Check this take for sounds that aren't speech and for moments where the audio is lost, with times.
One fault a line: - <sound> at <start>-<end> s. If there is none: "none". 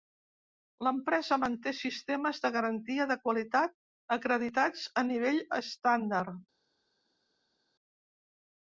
none